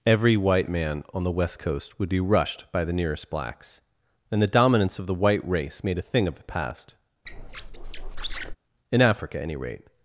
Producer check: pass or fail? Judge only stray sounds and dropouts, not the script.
fail